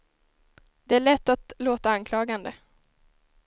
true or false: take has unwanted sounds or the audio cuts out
false